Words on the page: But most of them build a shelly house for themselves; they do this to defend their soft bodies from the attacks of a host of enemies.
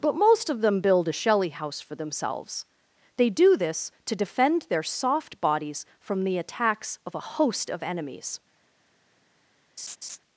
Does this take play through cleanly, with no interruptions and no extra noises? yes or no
no